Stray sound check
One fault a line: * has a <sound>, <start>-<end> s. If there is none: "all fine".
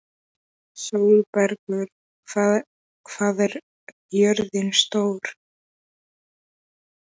all fine